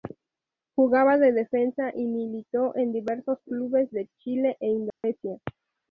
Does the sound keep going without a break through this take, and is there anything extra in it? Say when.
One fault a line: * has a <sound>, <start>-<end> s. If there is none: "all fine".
* has a dropout, 4.9-5.0 s